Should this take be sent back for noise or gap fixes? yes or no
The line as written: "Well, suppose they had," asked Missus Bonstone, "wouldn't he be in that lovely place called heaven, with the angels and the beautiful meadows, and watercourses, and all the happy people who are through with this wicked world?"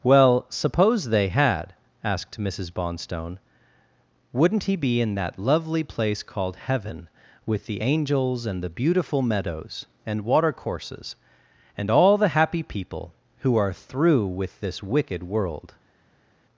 no